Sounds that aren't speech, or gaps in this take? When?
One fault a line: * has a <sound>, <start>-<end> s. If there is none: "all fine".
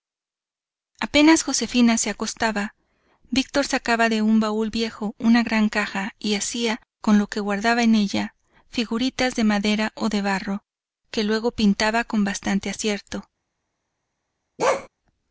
* has a bark, 14.6-14.9 s